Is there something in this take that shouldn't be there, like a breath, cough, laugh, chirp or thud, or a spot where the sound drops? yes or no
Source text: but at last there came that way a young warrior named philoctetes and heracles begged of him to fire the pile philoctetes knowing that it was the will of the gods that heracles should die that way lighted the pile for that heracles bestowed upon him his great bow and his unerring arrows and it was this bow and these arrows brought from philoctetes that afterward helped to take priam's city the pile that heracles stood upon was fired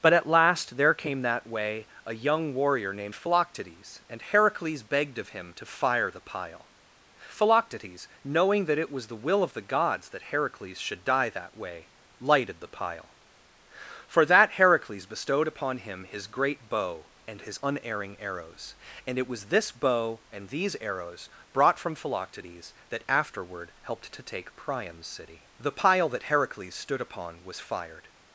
no